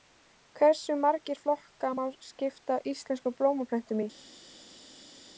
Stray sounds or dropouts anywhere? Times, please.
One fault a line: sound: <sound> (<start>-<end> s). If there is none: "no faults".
no faults